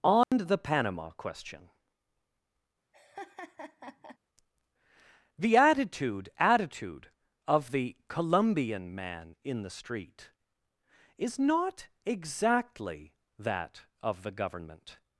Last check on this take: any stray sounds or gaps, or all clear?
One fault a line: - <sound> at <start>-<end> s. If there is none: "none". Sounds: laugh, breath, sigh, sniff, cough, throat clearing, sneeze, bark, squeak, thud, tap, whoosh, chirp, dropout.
- dropout at 0.2-0.3 s
- laugh at 2.9-4.2 s